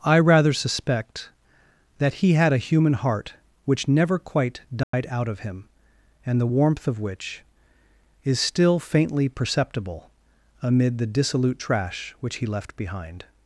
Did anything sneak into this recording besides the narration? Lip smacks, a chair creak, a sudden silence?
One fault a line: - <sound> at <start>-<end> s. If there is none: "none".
- dropout at 4.8-4.9 s